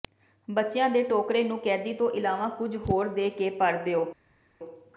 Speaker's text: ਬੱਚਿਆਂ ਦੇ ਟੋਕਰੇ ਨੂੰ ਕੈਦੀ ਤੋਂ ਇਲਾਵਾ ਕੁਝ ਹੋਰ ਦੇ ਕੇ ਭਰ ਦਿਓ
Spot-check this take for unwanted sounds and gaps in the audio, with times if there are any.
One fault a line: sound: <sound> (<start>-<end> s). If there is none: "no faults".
no faults